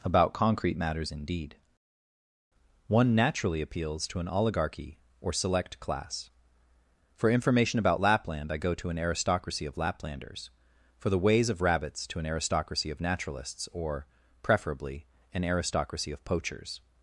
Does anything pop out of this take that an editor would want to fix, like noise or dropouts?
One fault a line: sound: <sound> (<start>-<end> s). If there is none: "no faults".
no faults